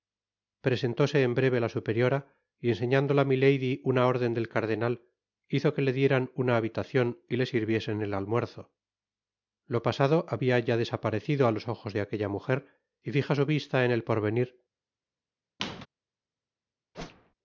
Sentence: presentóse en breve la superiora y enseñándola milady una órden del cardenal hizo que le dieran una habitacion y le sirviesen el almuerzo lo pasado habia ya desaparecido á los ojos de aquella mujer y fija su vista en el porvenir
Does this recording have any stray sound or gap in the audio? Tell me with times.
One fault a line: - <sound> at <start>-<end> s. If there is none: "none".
- squeak at 15.6-15.9 s
- whoosh at 16.9-17.3 s